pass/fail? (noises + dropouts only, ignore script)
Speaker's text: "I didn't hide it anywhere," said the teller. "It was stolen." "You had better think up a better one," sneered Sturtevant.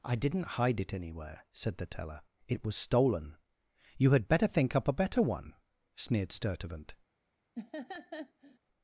fail